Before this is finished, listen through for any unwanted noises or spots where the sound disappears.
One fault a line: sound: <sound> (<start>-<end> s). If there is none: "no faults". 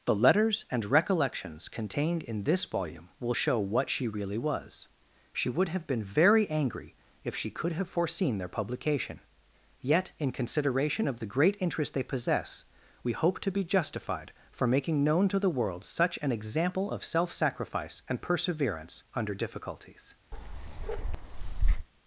sound: bark (20.3-21.9 s)